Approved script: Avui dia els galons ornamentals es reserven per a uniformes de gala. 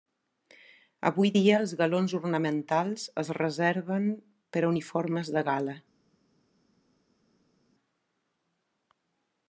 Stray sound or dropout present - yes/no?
no